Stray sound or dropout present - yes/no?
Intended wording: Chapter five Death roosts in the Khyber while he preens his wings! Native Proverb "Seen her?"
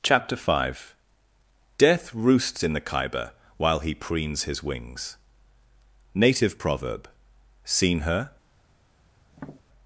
yes